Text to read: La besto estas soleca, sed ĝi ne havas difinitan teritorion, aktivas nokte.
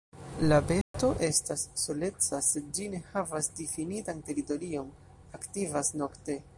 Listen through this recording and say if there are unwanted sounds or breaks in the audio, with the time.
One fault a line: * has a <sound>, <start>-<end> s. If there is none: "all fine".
* has a dropout, 0.8-0.9 s